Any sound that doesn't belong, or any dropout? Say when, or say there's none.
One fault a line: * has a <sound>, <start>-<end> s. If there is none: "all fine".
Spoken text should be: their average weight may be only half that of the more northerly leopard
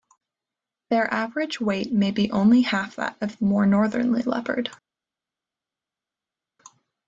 all fine